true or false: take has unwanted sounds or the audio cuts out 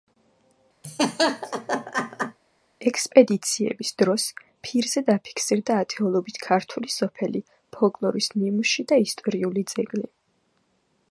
true